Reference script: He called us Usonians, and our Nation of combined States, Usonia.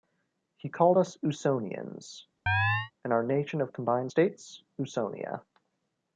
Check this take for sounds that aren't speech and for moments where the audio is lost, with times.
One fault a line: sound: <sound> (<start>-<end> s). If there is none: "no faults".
sound: chirp (2.5-2.9 s)